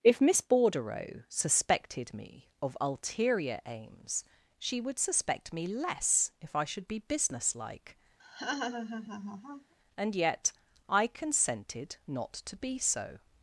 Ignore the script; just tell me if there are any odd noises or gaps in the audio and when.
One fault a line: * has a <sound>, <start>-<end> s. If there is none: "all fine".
* has a laugh, 8.2-9.7 s